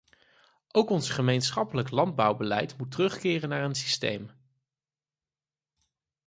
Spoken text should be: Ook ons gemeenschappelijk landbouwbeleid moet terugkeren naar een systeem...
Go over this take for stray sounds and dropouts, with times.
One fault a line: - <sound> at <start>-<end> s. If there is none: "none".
none